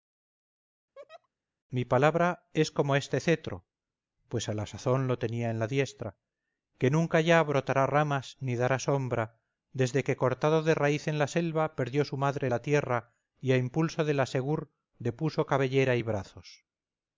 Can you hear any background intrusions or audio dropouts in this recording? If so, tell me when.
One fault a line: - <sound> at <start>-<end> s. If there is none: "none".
- laugh at 1.0-1.3 s